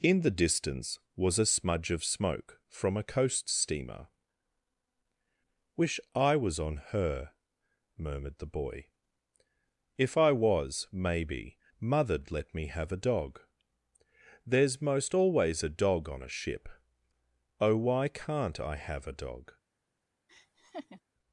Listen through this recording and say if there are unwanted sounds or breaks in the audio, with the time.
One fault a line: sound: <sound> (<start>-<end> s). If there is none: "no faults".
sound: laugh (20.3-21.0 s)